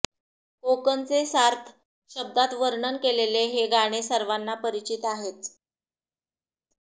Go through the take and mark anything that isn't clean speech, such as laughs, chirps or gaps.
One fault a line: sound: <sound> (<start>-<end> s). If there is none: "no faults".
no faults